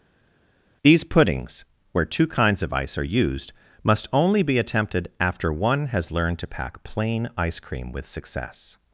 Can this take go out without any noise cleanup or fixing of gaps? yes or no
yes